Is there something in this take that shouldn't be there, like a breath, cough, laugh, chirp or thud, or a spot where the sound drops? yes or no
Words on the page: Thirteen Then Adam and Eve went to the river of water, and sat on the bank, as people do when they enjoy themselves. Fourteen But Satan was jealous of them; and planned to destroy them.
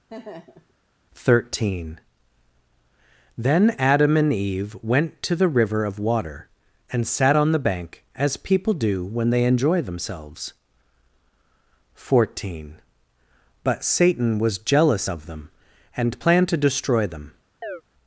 yes